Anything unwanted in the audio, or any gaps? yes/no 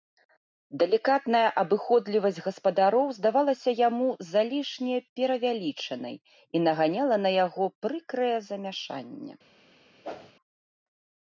yes